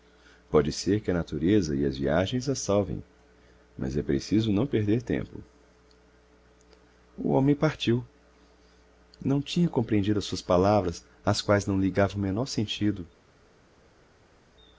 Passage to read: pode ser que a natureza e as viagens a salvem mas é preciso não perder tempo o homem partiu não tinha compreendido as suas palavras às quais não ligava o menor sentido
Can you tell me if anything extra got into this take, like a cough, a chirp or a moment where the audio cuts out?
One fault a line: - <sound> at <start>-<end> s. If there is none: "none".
none